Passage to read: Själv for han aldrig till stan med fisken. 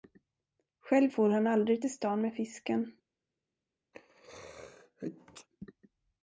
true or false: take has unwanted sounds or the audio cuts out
true